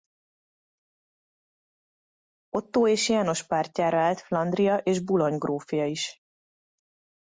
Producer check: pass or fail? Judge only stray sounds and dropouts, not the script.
pass